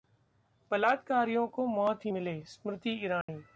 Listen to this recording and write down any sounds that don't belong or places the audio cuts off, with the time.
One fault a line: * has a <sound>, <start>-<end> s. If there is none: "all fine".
* has a dropout, 3.2-3.3 s